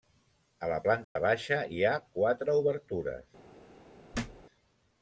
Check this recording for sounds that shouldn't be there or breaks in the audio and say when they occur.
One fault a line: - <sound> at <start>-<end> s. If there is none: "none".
- dropout at 1.0-1.2 s
- thud at 4.1-4.5 s